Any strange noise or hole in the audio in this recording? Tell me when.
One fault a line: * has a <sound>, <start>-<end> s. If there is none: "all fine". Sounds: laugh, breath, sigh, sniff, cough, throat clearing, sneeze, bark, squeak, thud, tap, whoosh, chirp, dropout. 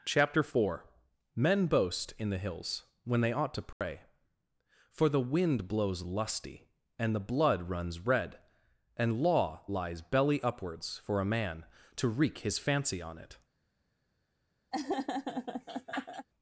* has a dropout, 3.7-3.8 s
* has a laugh, 14.7-16.3 s